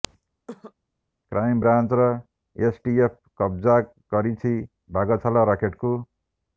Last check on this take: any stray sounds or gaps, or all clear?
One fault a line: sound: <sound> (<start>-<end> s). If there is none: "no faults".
sound: cough (0.5-0.7 s)